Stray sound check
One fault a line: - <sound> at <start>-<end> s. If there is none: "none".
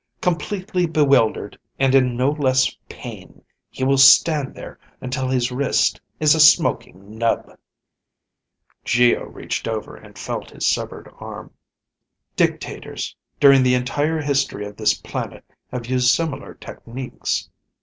none